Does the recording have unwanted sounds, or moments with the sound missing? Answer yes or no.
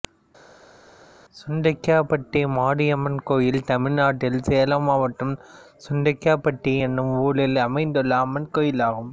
no